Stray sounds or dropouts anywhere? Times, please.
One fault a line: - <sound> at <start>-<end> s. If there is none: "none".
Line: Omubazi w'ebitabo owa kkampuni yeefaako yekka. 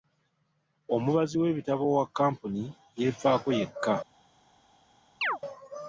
- chirp at 5.2-5.4 s